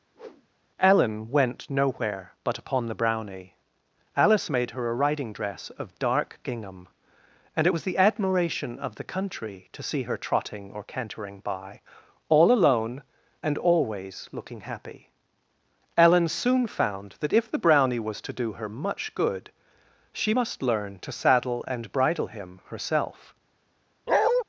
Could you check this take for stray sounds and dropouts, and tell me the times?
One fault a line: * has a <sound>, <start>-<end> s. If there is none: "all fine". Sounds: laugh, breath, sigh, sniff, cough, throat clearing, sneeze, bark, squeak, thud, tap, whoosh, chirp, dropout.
* has a whoosh, 0.1-0.5 s
* has a bark, 24.1-24.4 s